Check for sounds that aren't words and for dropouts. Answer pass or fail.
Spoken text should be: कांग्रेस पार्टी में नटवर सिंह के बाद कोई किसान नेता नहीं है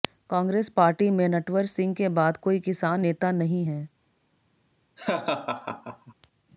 fail